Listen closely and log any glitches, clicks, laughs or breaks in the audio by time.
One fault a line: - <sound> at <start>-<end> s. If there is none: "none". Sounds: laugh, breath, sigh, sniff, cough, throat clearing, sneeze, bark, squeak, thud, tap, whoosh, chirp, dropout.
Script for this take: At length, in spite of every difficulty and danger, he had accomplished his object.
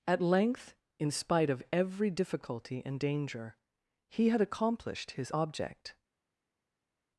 none